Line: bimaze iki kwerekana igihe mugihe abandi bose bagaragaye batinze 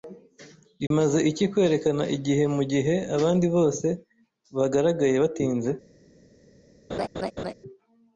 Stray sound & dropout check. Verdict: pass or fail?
fail